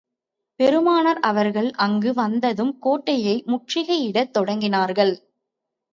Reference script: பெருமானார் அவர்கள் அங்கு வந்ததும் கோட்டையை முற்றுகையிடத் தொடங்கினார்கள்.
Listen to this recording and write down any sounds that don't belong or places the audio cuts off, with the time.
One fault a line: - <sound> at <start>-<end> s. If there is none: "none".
none